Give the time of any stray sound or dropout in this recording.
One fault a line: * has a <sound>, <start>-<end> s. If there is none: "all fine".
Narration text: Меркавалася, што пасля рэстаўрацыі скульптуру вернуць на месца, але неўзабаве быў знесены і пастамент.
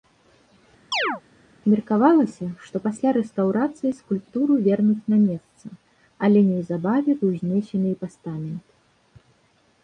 * has a chirp, 0.9-1.2 s